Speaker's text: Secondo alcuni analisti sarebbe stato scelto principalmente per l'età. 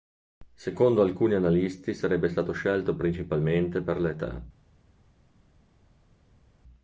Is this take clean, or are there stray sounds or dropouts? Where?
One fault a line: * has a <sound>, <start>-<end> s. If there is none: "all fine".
all fine